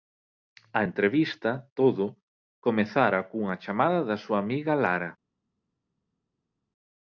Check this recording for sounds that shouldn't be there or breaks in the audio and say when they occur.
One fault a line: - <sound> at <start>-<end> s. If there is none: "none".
none